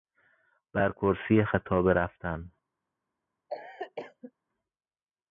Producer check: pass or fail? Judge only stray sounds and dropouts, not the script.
fail